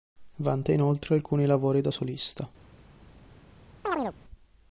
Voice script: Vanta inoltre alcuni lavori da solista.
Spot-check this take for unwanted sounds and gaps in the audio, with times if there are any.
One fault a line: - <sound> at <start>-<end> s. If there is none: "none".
- chirp at 3.8-4.2 s